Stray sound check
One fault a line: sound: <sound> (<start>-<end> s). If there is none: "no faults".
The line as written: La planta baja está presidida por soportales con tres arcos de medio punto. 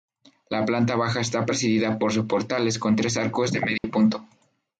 sound: dropout (3.8-3.8 s)